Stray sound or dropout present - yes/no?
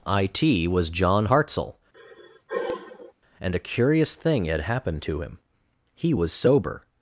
yes